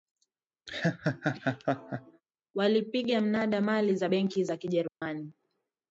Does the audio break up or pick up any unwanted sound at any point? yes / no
yes